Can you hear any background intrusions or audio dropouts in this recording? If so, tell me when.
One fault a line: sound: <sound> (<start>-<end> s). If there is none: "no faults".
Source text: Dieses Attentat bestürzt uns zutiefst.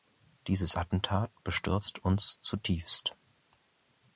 no faults